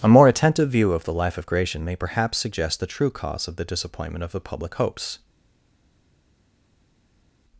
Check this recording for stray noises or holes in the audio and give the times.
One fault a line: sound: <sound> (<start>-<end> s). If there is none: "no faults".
no faults